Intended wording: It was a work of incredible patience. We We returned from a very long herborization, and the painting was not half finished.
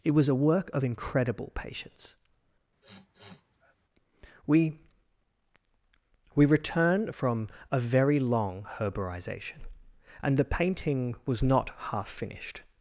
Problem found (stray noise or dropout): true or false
true